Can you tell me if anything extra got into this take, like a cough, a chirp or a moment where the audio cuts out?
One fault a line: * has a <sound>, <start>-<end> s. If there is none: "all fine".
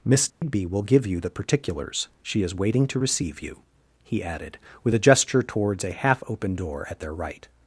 * has a dropout, 0.3-0.4 s